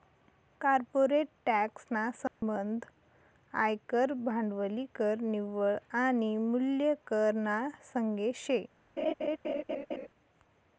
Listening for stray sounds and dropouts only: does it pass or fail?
fail